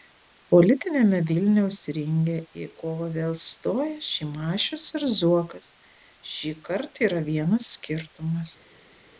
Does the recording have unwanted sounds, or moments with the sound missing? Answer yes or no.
no